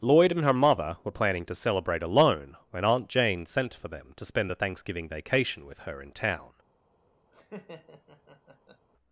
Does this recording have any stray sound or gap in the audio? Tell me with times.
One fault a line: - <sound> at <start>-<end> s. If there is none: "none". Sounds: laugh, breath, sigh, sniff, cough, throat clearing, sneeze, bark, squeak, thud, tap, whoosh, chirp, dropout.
- laugh at 7.3-8.9 s